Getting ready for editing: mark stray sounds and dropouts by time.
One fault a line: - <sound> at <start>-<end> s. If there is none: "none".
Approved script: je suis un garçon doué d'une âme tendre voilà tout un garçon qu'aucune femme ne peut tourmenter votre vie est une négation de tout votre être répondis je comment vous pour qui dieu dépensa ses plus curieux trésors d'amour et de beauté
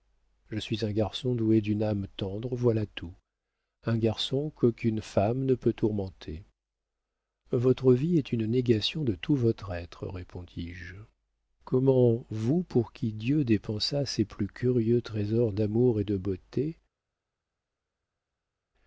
none